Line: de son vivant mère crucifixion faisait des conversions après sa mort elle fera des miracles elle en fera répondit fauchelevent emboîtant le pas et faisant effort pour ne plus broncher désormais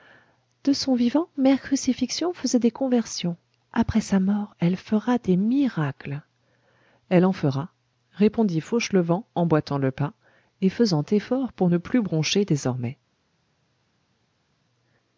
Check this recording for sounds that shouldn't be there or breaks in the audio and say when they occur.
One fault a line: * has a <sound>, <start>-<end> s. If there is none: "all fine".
all fine